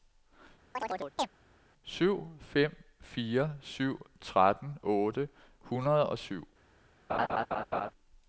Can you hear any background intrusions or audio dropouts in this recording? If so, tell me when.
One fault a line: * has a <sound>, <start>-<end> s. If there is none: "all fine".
* has a chirp, 0.7-1.3 s
* has a laugh, 7.1-7.9 s